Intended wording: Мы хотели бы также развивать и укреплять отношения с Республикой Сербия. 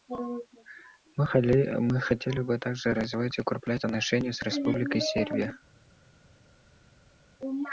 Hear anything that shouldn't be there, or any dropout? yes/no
no